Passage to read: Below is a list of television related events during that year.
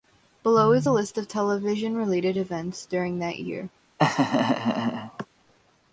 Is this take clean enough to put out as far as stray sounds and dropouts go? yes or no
no